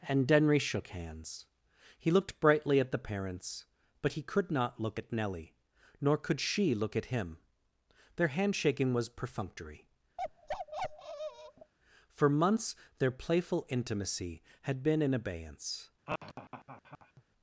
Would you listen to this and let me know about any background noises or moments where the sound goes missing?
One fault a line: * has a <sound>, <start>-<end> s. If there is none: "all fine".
* has a bark, 10.2-11.7 s
* has a laugh, 16.1-17.2 s